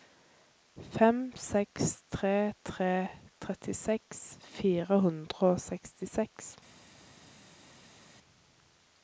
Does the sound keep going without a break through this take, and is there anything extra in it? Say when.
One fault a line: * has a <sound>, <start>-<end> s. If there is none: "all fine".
all fine